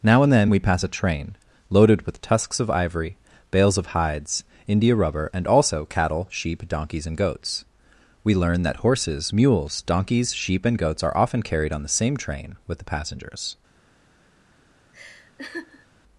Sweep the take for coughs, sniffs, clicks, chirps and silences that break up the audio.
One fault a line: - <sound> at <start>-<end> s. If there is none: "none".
- laugh at 14.9-15.9 s